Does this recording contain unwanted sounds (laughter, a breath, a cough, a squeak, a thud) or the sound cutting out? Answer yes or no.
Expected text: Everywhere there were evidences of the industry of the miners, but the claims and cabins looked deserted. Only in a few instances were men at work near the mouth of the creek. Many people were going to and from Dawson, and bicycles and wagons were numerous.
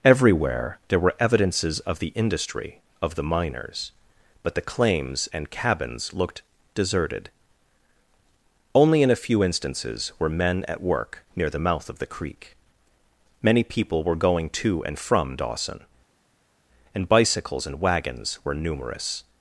no